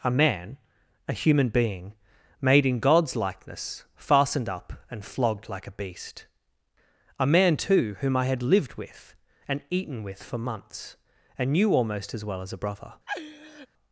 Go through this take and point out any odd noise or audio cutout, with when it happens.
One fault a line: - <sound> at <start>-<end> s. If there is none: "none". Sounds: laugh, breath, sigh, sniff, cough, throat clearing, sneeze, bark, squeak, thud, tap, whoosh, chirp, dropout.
- laugh at 13.1-13.7 s